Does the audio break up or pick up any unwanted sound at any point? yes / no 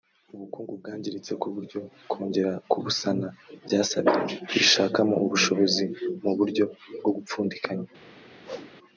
yes